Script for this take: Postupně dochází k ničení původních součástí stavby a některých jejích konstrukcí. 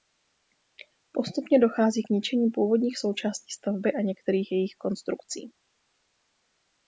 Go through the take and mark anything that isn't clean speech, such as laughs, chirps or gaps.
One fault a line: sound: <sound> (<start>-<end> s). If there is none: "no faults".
no faults